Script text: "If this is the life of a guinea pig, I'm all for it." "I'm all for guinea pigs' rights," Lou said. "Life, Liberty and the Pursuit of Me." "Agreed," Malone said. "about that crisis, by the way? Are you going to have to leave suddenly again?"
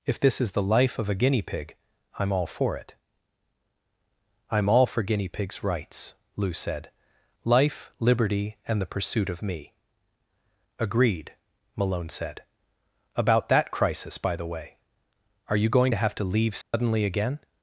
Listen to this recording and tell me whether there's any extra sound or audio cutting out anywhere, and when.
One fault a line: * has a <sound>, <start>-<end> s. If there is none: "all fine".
* has a dropout, 16.6-16.7 s